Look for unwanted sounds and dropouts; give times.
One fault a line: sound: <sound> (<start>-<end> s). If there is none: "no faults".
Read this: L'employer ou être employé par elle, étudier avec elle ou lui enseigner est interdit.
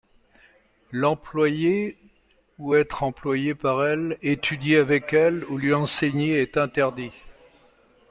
no faults